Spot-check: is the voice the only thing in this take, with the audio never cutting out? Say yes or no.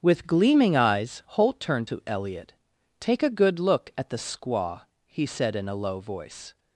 yes